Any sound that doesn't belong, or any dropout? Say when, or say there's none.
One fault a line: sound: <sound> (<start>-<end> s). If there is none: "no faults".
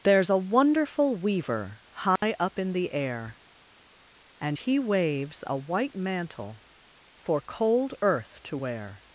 sound: dropout (2.2-2.2 s)